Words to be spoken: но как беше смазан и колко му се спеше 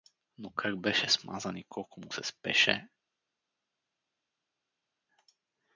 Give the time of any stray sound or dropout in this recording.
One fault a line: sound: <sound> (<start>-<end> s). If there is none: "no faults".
no faults